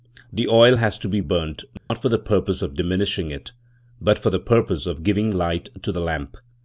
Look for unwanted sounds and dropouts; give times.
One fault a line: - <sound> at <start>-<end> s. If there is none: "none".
- dropout at 1.8-1.9 s